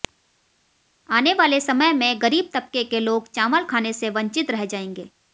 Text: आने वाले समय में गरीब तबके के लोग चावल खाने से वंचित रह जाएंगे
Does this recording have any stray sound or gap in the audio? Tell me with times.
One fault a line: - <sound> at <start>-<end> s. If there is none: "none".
none